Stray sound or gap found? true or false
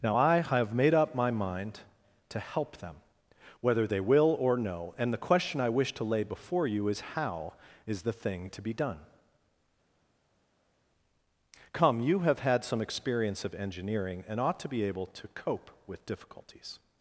false